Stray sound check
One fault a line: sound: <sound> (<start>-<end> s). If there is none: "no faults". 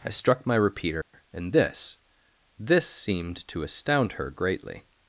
sound: dropout (1.0-1.1 s)